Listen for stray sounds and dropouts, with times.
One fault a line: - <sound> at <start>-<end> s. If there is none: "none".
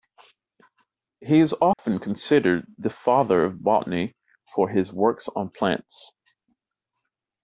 - dropout at 1.7-1.8 s